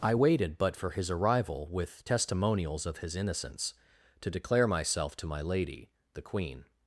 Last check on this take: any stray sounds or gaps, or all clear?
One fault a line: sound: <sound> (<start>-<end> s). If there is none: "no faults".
no faults